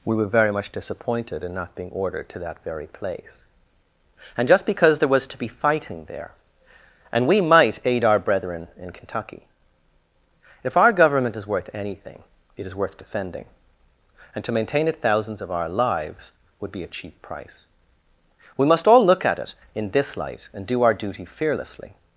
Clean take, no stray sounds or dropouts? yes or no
yes